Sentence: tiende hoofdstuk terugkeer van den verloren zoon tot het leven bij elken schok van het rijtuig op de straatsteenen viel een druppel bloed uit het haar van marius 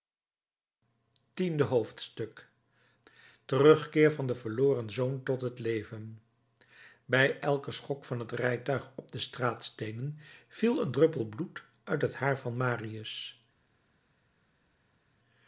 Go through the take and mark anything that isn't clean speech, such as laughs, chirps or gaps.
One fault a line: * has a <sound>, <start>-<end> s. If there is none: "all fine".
all fine